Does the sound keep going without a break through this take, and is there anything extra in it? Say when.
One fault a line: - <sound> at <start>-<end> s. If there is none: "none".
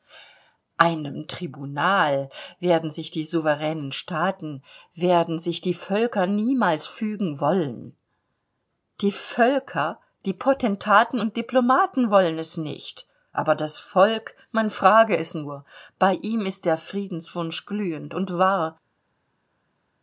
none